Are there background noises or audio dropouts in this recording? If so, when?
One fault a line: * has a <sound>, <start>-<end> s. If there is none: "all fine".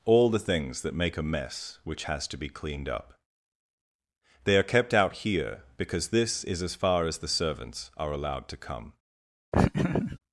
* has a laugh, 9.5-10.2 s